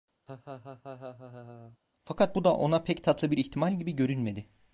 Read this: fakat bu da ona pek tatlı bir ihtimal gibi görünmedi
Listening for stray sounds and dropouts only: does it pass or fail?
fail